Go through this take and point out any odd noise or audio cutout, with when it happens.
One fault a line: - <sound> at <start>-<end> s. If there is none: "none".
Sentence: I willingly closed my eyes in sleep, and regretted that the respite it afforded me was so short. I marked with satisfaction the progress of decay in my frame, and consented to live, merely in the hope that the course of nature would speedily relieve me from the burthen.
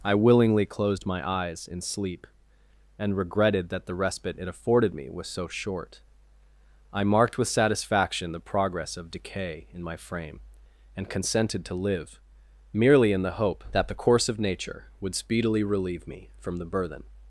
none